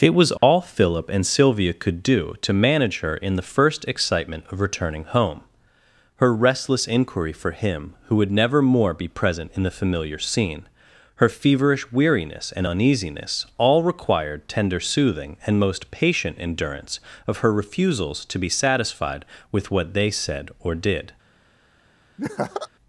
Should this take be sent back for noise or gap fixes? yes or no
yes